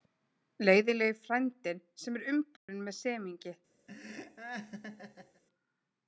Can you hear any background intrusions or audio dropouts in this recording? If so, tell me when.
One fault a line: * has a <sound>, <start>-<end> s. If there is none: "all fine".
* has a dropout, 2.6-2.7 s
* has a laugh, 3.9-5.4 s